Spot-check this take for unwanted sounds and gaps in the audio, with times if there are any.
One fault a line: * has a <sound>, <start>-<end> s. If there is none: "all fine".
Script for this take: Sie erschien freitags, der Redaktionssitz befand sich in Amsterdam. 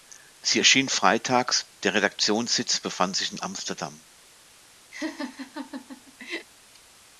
* has a laugh, 4.9-6.5 s